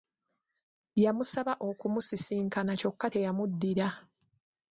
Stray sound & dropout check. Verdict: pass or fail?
pass